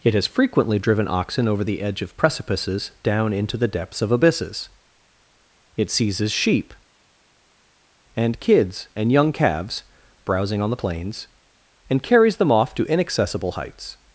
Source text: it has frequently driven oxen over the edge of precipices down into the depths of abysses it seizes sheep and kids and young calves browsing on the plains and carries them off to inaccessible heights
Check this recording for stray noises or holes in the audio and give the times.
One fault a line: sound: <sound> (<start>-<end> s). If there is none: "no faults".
no faults